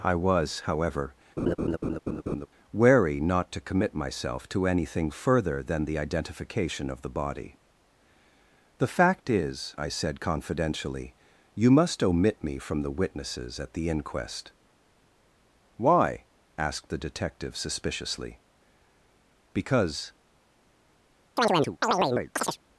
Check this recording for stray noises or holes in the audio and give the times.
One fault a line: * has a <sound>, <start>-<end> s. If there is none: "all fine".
* has a laugh, 1.4-2.5 s
* has a chirp, 21.4-22.6 s